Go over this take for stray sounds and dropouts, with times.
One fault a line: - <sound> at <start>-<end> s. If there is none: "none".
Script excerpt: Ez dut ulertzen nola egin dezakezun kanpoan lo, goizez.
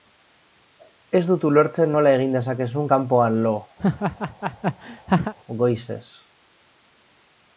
- laugh at 3.8-5.3 s